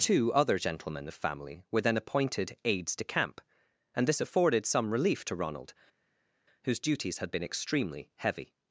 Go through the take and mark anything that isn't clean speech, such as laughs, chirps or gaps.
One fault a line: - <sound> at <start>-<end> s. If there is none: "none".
none